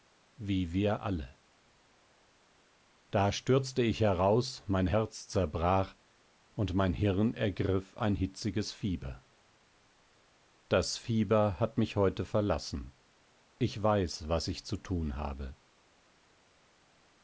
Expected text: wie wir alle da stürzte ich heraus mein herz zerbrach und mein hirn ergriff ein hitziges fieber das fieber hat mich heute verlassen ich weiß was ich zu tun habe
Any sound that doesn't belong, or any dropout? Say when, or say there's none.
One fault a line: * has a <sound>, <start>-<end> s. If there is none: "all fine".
all fine